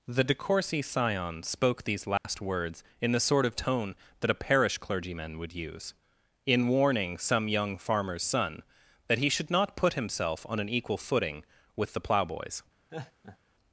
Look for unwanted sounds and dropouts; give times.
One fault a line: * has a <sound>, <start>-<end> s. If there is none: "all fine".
* has a dropout, 2.2-2.2 s
* has a laugh, 12.9-13.4 s